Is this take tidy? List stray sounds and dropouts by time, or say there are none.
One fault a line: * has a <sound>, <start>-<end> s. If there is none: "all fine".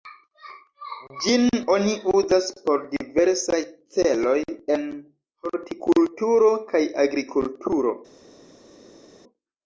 all fine